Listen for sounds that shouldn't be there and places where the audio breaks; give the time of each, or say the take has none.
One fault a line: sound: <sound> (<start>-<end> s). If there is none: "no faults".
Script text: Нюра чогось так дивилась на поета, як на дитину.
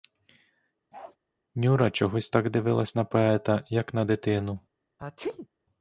sound: bark (0.9-1.2 s)
sound: sneeze (5.0-5.5 s)